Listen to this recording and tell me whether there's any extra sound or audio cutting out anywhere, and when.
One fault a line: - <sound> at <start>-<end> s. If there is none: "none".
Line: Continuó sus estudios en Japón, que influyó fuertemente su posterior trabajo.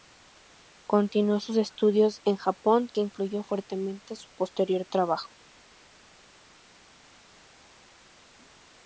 none